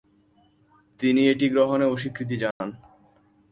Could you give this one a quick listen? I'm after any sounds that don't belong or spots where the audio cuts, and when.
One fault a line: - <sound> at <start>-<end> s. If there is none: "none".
- dropout at 2.5-2.6 s